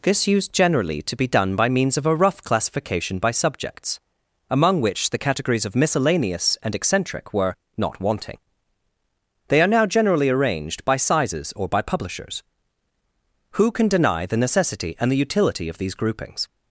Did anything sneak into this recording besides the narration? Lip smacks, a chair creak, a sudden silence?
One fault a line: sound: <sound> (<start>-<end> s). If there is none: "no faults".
no faults